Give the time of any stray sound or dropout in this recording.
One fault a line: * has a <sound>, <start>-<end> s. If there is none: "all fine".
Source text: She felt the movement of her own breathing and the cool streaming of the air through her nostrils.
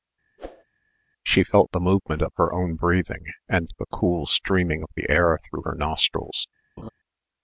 * has a whoosh, 0.4-0.6 s
* has a laugh, 6.8-6.9 s